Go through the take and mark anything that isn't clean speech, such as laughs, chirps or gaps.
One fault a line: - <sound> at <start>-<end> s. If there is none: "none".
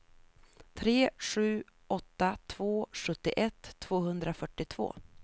none